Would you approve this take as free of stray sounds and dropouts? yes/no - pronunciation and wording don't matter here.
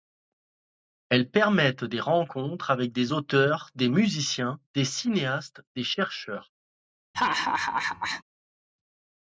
no